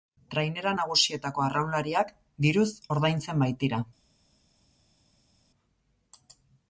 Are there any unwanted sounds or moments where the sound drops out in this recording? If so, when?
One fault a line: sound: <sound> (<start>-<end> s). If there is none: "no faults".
no faults